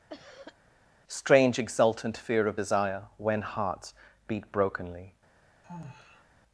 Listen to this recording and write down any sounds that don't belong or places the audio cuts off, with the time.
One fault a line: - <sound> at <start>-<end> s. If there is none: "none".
- cough at 0.1-0.6 s
- sigh at 5.6-6.2 s